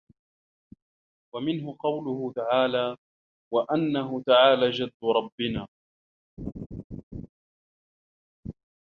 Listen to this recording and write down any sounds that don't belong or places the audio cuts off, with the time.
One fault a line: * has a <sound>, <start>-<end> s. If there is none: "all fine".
* has a laugh, 6.4-7.3 s